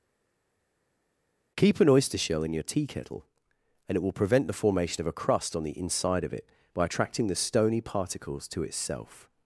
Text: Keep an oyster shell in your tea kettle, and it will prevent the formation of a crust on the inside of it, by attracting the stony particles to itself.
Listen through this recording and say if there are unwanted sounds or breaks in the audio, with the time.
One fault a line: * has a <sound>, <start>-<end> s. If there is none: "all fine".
all fine